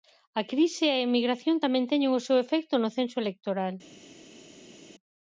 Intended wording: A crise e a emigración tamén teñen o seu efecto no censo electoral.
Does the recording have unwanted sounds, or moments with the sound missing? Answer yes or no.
no